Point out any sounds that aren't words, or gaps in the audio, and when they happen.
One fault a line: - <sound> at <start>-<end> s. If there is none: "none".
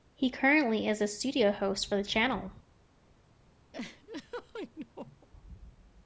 - laugh at 3.7-5.3 s